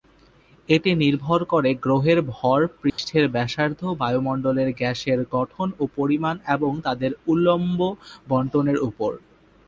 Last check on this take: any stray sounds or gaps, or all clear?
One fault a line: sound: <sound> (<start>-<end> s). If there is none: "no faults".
sound: dropout (2.9-3.0 s)